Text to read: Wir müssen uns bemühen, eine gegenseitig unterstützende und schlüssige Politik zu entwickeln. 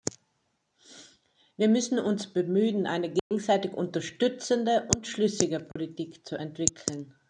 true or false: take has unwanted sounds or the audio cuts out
true